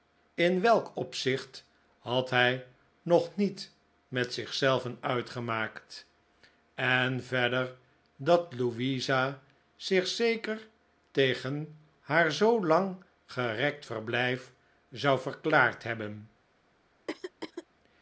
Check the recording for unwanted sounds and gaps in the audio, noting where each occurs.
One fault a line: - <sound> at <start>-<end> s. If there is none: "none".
- throat clearing at 17.1-17.7 s